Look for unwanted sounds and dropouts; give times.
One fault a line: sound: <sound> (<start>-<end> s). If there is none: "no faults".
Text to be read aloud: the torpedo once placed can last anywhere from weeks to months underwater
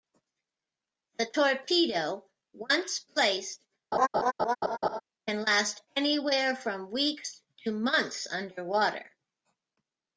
sound: laugh (3.9-5.0 s)